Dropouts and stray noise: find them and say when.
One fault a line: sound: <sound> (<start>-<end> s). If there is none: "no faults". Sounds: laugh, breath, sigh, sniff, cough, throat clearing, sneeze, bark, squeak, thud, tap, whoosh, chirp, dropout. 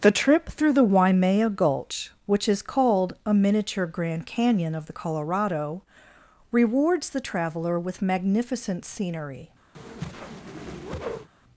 sound: whoosh (9.7-11.3 s)